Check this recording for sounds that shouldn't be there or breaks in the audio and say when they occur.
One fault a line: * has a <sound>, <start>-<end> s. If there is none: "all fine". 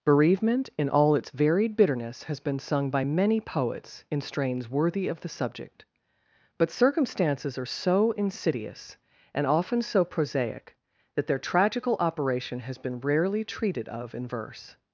all fine